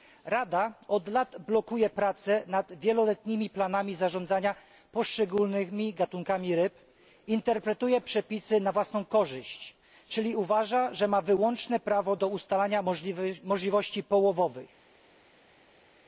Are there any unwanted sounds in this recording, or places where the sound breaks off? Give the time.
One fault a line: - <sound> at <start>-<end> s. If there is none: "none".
none